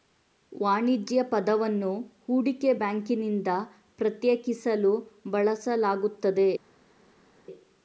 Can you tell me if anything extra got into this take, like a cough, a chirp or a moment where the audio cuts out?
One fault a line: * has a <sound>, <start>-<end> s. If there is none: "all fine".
all fine